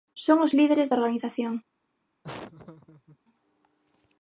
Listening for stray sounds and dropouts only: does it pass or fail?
fail